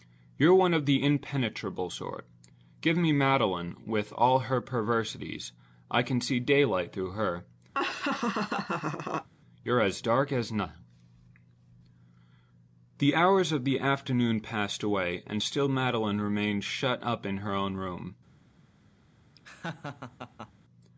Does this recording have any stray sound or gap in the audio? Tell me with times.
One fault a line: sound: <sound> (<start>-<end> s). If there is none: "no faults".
sound: laugh (7.7-9.3 s)
sound: laugh (19.3-20.5 s)